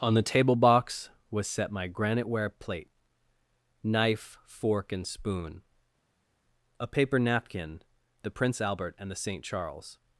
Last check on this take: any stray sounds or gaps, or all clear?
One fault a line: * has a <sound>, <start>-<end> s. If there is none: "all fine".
all fine